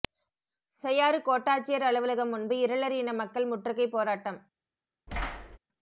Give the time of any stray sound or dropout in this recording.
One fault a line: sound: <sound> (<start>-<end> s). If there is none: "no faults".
sound: thud (5.1-5.6 s)